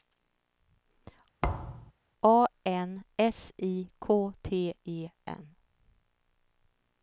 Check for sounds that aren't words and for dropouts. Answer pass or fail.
fail